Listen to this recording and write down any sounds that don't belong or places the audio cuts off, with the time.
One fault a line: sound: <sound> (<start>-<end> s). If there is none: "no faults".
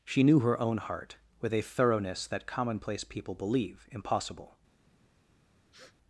sound: sniff (5.7-6.0 s)